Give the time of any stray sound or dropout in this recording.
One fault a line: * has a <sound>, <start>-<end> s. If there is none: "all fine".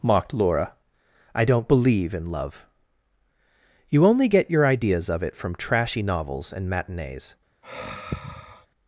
* has a sigh, 7.6-8.7 s